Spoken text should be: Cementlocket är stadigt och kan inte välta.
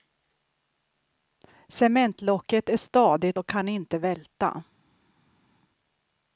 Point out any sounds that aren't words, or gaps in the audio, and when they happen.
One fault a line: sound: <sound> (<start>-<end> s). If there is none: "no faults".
no faults